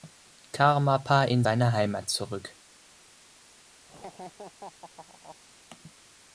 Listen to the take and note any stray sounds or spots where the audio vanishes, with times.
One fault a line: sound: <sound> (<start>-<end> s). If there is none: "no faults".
sound: laugh (3.9-5.4 s)